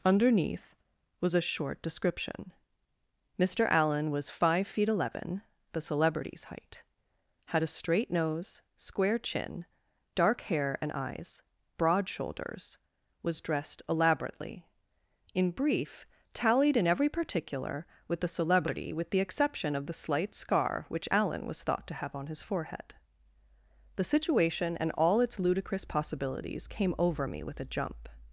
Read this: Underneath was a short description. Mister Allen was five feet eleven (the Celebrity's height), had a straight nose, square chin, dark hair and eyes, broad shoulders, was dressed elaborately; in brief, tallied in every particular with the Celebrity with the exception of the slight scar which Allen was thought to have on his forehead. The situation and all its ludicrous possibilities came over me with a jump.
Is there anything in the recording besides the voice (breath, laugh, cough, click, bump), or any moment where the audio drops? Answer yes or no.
no